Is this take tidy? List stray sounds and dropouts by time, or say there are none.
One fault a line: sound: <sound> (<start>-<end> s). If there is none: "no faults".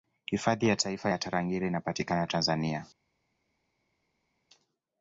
no faults